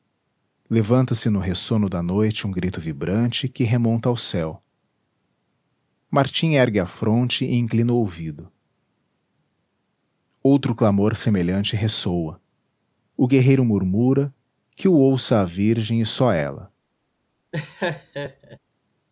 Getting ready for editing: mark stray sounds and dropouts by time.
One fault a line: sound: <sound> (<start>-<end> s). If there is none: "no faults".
sound: laugh (17.5-18.6 s)